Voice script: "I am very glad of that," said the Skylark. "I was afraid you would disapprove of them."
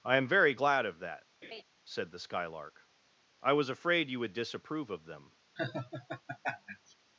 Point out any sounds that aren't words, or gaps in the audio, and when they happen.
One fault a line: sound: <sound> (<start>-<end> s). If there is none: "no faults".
sound: laugh (1.4-1.6 s)
sound: laugh (5.6-6.9 s)